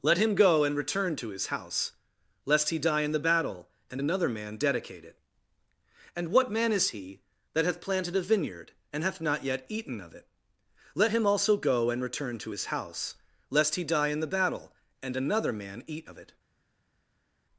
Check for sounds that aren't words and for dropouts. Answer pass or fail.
pass